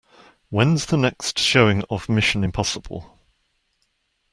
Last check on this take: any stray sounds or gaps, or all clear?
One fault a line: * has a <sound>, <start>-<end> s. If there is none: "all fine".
all fine